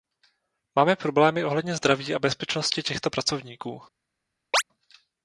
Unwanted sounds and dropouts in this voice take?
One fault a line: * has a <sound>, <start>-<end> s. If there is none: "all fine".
* has a chirp, 4.5-4.6 s